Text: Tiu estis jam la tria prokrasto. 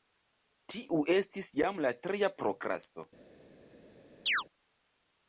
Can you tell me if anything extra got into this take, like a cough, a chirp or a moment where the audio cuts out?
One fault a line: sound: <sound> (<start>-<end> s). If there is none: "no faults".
sound: chirp (4.3-4.4 s)